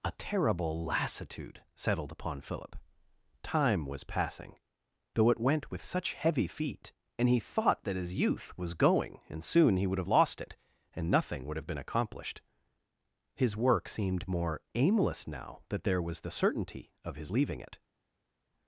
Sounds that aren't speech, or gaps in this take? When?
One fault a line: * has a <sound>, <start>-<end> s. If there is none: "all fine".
all fine